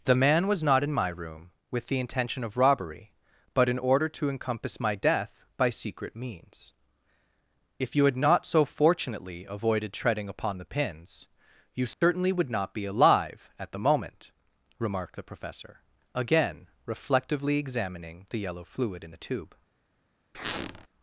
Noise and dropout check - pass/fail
fail